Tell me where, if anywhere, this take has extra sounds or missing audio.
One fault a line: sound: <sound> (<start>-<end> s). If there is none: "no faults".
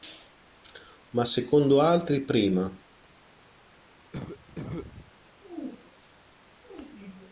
sound: cough (4.1-5.1 s)